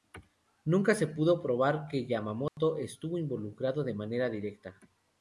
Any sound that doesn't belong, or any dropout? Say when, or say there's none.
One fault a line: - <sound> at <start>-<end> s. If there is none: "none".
- dropout at 2.5-2.6 s